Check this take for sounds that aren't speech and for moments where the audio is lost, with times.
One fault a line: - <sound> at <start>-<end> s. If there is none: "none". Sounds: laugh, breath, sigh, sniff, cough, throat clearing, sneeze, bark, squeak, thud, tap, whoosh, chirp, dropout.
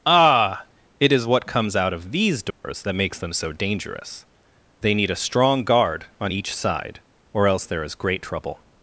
- dropout at 2.5-2.6 s